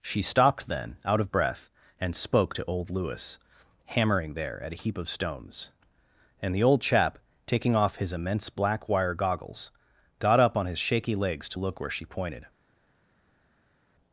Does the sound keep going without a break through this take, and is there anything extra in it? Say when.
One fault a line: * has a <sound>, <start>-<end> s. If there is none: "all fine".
all fine